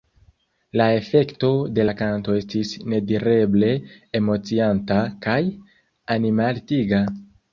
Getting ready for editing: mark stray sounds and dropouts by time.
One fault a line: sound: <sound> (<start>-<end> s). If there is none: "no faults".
no faults